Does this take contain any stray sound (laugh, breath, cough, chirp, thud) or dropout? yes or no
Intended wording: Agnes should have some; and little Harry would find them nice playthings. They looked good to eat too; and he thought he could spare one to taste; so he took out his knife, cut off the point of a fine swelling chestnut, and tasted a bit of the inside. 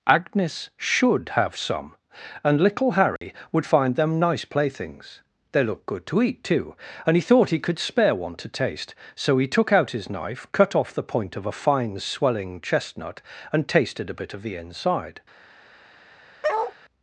yes